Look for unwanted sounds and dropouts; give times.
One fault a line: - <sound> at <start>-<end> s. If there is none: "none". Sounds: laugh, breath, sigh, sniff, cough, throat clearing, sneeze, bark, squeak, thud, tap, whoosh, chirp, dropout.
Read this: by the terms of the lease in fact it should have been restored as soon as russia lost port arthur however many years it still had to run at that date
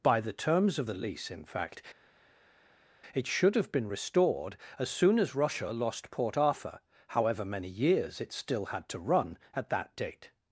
none